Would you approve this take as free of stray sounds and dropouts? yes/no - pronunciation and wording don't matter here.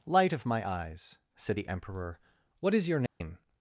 no